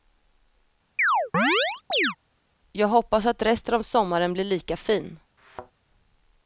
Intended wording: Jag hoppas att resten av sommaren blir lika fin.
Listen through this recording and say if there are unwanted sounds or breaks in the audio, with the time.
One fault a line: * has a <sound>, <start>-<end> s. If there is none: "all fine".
* has a chirp, 1.0-2.2 s
* has a thud, 5.4-5.7 s